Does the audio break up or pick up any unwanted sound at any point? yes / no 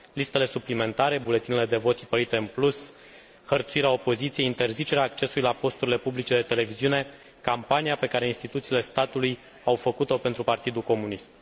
no